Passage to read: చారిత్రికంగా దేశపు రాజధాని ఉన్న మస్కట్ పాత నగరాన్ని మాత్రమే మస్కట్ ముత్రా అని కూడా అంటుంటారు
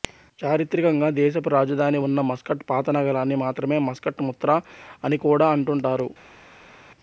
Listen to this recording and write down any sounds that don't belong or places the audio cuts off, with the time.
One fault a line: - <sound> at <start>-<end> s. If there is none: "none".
none